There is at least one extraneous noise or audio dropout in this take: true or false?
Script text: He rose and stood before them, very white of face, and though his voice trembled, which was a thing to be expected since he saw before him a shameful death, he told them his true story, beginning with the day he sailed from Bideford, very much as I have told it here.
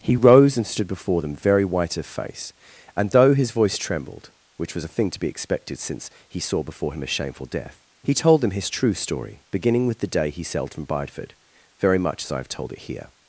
false